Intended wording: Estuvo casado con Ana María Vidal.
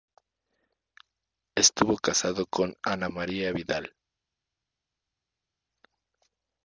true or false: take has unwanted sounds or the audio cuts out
false